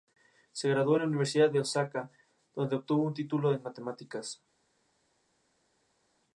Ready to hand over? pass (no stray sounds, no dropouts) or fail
pass